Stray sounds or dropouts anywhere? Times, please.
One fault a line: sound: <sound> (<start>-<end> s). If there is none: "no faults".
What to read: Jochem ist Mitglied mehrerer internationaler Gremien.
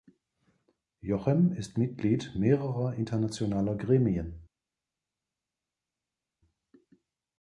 no faults